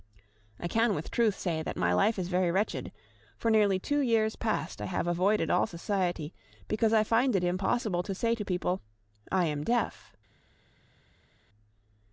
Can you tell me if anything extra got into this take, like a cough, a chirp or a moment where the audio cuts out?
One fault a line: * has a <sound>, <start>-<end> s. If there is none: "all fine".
all fine